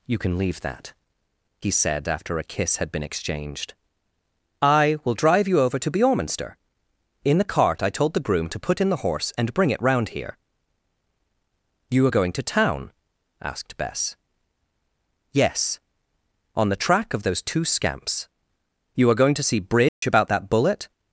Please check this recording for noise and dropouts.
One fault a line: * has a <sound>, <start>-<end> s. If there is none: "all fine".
* has a dropout, 19.9-20.0 s